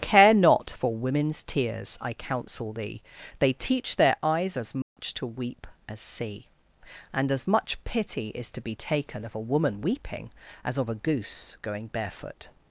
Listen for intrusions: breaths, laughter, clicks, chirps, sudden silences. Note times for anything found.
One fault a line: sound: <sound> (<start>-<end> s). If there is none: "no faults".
sound: dropout (4.8-5.0 s)